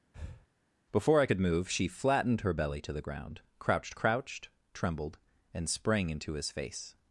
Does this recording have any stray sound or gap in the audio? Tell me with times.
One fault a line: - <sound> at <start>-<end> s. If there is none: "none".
- breath at 0.1-0.5 s